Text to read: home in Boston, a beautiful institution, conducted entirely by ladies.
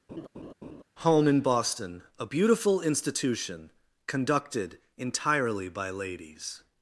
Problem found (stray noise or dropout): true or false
true